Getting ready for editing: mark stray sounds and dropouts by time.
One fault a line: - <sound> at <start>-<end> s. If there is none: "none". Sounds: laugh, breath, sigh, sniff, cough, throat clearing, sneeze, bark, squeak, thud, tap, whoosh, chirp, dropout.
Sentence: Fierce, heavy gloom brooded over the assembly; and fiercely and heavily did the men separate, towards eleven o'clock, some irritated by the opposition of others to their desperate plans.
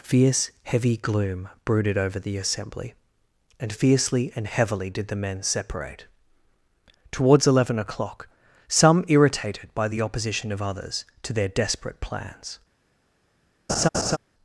- laugh at 13.7-14.2 s